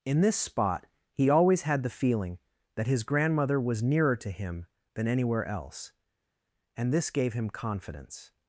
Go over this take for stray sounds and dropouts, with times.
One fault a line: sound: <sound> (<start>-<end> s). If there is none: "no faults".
no faults